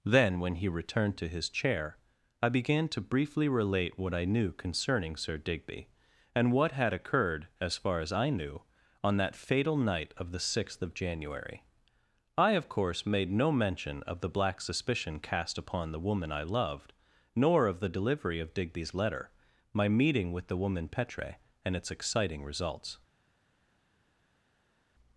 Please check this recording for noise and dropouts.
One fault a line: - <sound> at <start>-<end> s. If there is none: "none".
none